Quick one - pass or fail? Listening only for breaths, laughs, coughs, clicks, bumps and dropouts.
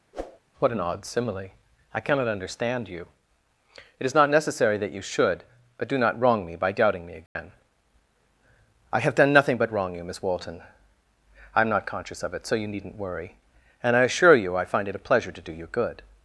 fail